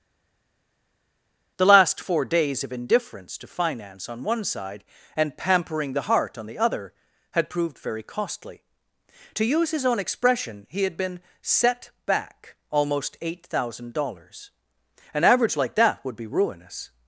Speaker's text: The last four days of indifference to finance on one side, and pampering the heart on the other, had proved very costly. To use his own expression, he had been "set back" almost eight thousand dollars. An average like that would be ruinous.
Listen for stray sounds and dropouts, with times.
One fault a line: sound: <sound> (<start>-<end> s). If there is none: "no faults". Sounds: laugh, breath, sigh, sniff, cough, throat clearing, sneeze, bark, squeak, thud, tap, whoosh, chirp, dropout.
no faults